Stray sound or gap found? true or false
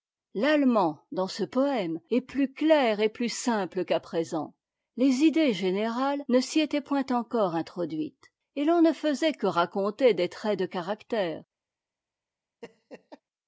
true